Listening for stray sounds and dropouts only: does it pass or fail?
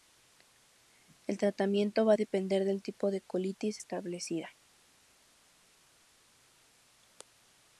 pass